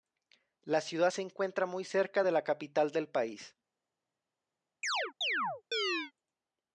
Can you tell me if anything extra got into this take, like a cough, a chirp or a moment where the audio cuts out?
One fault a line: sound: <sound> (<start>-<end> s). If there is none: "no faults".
sound: chirp (4.8-6.1 s)